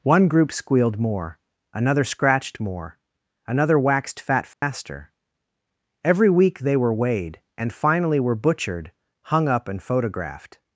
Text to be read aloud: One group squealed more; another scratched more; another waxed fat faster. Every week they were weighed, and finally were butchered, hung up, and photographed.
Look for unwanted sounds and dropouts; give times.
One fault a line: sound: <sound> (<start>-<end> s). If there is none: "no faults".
sound: dropout (4.5-4.6 s)